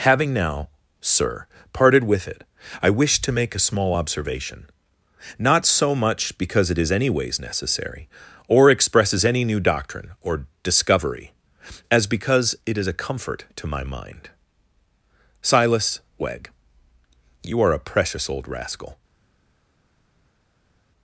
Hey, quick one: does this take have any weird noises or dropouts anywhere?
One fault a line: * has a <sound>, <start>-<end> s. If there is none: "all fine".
all fine